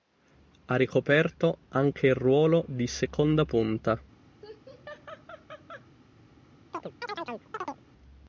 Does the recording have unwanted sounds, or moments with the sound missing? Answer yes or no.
yes